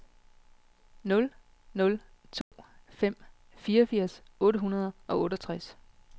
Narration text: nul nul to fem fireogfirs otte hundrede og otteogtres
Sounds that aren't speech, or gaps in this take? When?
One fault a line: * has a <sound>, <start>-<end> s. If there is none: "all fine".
* has a dropout, 2.4-2.5 s